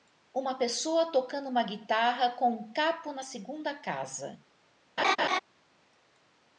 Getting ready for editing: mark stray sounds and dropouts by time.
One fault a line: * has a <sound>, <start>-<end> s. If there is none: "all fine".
* has a laugh, 5.0-5.4 s